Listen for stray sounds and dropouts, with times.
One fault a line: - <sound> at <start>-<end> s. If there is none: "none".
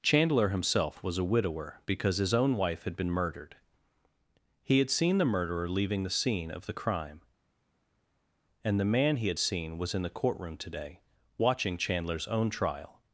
none